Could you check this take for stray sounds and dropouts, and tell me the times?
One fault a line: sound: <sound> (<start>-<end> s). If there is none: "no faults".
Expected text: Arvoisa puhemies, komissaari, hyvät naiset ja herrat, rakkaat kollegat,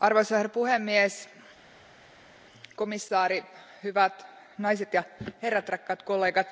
no faults